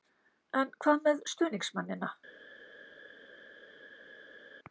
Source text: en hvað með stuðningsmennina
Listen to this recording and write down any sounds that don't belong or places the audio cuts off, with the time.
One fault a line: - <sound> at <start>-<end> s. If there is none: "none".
none